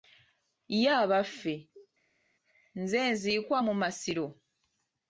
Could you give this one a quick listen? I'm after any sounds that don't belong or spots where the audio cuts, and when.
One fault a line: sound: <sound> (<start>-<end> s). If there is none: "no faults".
no faults